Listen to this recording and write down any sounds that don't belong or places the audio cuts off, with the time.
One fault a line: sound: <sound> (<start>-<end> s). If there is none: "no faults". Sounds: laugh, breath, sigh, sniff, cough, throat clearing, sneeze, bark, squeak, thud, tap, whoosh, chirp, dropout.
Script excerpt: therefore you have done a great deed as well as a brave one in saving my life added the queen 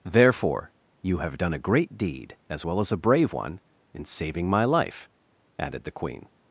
no faults